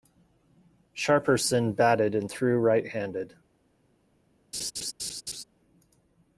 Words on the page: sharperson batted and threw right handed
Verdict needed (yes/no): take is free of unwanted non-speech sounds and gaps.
no